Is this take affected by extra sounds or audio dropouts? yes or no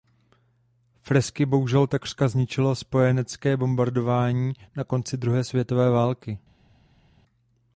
no